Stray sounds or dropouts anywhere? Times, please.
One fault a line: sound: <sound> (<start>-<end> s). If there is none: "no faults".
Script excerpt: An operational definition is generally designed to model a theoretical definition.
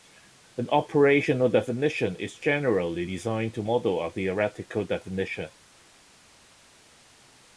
no faults